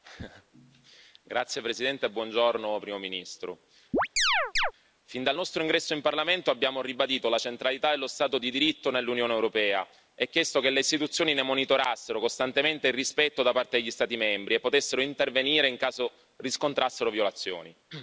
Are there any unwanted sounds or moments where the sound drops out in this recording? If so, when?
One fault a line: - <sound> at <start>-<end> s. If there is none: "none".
- chirp at 3.9-4.7 s